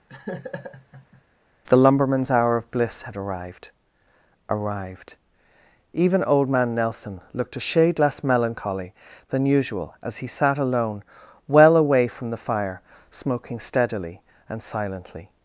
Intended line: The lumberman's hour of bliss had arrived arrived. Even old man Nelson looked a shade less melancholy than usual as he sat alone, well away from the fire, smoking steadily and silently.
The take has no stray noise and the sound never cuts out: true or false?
false